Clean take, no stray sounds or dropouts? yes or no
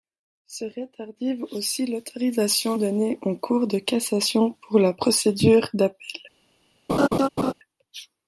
no